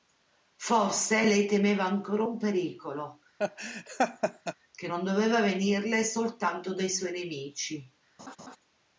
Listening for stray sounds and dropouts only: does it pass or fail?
fail